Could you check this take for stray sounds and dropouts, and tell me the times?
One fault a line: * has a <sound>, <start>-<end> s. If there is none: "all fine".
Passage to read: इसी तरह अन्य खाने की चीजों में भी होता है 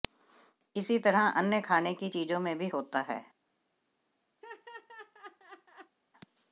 * has a laugh, 4.4-6.0 s